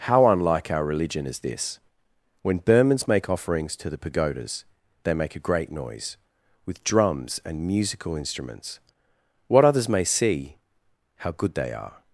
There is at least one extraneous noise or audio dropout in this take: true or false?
false